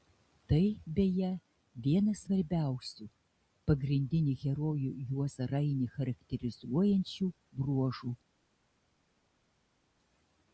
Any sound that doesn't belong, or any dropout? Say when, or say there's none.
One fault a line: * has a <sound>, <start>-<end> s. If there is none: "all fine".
all fine